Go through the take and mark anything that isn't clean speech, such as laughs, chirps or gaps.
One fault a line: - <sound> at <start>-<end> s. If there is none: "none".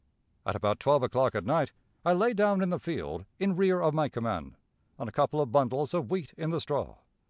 none